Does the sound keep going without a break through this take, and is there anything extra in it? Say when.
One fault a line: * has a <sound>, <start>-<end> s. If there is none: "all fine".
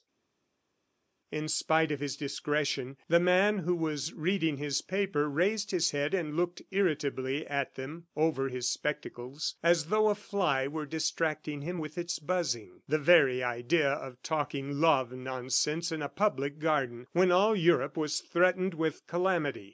all fine